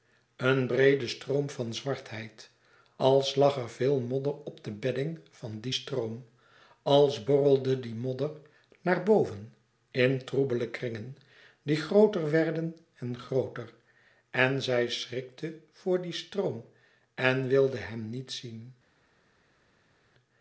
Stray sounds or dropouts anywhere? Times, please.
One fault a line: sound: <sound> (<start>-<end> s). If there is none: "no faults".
no faults